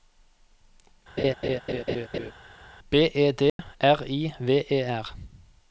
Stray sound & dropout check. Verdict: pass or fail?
fail